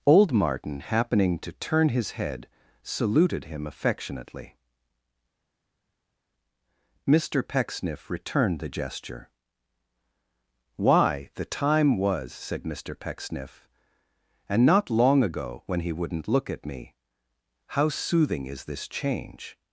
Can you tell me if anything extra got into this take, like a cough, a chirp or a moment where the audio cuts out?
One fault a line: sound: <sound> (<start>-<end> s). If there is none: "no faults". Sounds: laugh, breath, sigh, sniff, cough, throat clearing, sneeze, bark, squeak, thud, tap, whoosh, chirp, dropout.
no faults